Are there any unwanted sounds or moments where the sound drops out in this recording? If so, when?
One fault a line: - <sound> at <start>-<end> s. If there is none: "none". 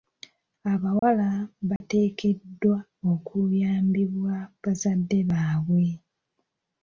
- dropout at 1.0-1.0 s
- dropout at 1.8-1.8 s